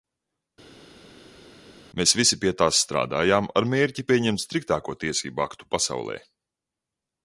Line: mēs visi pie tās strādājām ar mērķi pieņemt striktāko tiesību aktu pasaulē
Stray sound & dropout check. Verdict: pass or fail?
pass